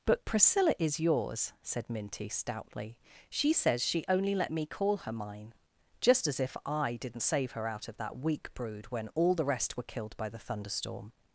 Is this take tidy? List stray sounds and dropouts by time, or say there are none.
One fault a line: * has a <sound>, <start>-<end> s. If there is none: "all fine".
all fine